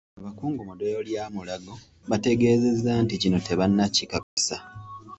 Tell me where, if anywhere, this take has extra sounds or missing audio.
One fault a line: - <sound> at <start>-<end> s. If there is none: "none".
- dropout at 4.2-4.4 s